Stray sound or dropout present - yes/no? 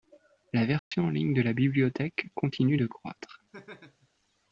yes